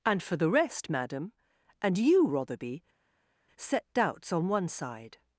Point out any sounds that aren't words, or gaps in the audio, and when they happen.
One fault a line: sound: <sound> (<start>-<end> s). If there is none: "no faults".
no faults